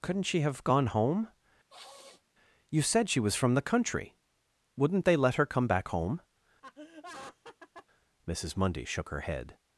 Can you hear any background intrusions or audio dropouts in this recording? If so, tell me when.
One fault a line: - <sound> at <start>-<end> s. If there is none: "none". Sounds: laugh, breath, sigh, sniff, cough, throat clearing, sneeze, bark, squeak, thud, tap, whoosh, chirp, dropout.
- sniff at 1.7-2.2 s
- laugh at 6.6-7.9 s